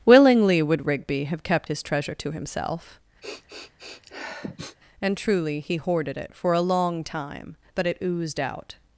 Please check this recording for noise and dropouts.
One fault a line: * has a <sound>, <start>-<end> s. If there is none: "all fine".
* has a sniff, 3.2-4.8 s